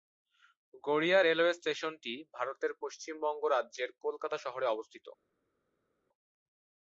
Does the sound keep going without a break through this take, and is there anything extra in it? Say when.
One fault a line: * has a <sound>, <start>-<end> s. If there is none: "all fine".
all fine